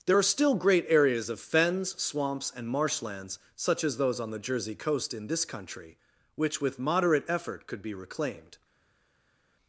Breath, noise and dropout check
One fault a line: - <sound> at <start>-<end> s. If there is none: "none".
none